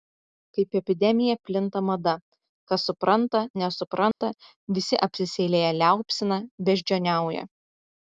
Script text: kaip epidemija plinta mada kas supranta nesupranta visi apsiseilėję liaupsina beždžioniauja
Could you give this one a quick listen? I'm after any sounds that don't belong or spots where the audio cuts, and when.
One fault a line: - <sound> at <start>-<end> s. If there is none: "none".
- dropout at 4.1-4.2 s